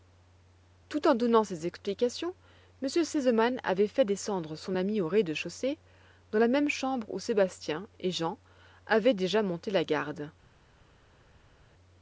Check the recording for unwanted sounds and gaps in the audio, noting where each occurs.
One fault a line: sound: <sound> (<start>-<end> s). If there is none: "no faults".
no faults